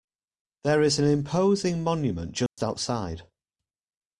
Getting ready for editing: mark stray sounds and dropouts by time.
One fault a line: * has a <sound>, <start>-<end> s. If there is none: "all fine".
* has a dropout, 2.5-2.6 s